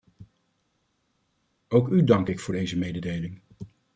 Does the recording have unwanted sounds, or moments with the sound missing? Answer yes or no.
no